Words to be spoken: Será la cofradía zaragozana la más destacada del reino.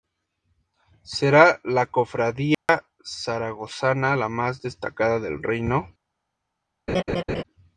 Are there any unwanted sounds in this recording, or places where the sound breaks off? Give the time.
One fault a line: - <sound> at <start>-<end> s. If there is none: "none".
- dropout at 2.5-2.7 s
- laugh at 6.9-7.4 s